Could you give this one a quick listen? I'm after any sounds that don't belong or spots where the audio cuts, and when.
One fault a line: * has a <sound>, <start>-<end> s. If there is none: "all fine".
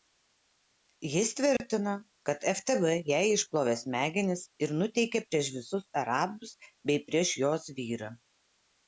* has a dropout, 1.6-1.6 s